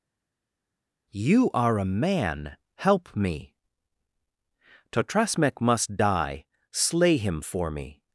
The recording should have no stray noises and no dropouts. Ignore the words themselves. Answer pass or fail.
pass